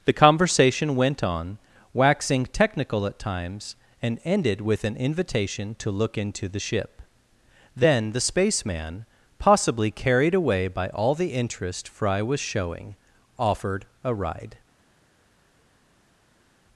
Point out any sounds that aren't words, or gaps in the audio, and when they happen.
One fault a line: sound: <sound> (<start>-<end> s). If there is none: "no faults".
no faults